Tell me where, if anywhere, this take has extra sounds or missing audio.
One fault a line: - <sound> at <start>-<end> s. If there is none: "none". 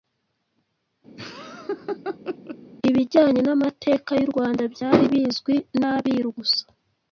- laugh at 1.2-2.6 s